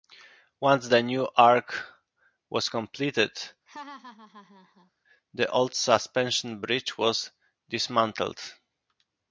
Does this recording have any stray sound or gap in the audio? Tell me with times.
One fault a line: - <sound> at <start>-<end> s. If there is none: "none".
- laugh at 3.7-4.9 s